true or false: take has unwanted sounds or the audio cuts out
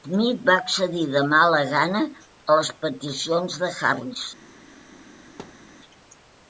true